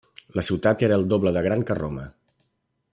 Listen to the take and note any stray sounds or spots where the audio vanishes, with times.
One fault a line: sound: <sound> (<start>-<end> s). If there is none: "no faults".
no faults